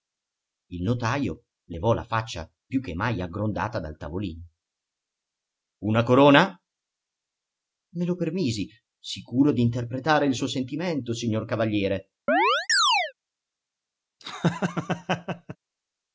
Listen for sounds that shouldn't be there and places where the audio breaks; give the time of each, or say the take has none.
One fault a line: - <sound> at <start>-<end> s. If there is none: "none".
- chirp at 12.3-13.1 s
- laugh at 14.2-15.6 s